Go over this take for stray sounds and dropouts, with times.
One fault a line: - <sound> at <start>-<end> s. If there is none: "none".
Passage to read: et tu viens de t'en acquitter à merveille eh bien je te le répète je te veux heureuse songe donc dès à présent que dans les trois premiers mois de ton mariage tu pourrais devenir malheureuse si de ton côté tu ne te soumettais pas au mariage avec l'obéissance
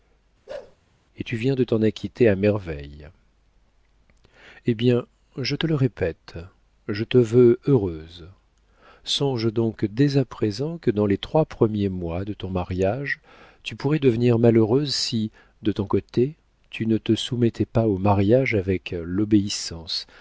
- bark at 0.5-0.8 s